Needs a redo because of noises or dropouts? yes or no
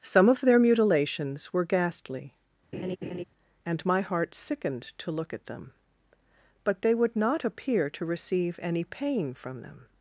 yes